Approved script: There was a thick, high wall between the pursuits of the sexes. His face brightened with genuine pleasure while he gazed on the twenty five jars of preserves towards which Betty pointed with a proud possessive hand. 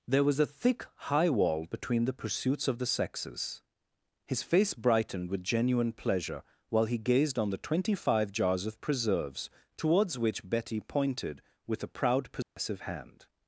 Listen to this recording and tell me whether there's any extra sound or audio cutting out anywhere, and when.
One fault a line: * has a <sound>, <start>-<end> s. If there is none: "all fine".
* has a dropout, 12.4-12.6 s